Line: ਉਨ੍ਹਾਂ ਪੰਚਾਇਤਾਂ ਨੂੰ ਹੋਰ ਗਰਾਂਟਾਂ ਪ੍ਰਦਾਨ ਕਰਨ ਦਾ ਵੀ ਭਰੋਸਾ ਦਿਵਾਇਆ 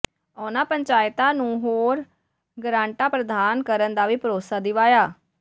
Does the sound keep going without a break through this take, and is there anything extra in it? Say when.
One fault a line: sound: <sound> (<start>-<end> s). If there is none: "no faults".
no faults